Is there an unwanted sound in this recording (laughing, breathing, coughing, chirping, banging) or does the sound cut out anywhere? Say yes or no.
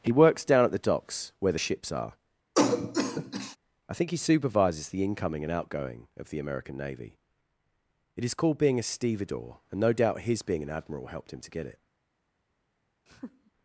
yes